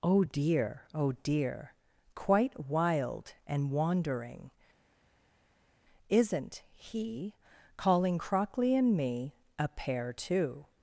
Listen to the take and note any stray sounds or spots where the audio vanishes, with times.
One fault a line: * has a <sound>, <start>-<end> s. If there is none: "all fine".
all fine